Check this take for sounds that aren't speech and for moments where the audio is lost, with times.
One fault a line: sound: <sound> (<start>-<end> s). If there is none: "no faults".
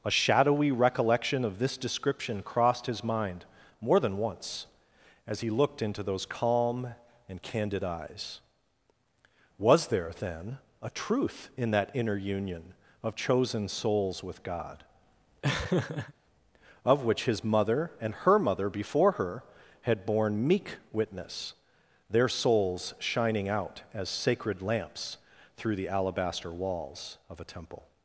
sound: laugh (15.4-16.1 s)